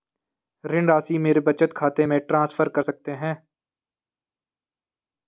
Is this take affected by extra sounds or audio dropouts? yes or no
no